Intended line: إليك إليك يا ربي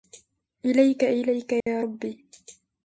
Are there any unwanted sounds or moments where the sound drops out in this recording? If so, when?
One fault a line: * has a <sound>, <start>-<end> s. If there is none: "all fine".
* has a dropout, 1.6-1.7 s